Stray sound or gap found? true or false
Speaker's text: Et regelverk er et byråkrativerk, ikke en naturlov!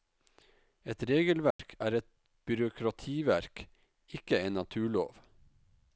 true